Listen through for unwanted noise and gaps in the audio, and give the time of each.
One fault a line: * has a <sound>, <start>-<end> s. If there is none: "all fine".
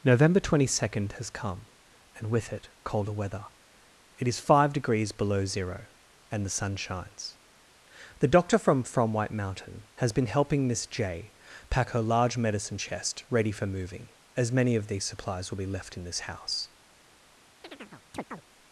* has a chirp, 17.6-18.4 s